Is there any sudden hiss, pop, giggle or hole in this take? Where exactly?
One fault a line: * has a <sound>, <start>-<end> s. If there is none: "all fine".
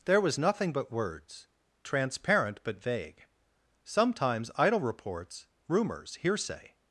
all fine